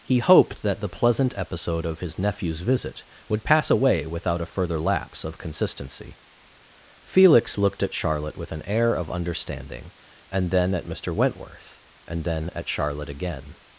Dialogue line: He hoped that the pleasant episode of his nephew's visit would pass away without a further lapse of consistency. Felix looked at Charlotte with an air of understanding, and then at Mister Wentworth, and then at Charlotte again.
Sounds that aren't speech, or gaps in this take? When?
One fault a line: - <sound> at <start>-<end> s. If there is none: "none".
none